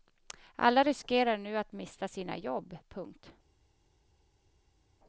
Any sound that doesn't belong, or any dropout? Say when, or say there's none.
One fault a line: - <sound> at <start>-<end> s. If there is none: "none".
none